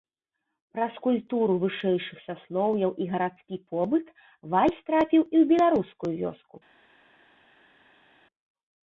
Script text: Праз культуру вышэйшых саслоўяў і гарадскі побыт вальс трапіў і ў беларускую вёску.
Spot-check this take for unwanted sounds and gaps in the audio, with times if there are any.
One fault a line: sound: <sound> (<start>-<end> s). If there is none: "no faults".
no faults